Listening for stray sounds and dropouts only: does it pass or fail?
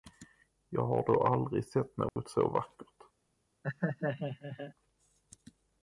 fail